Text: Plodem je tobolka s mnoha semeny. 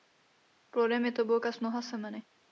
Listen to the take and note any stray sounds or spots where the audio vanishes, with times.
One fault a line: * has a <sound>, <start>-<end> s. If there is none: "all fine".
all fine